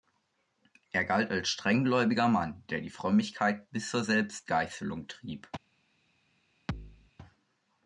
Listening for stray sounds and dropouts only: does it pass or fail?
fail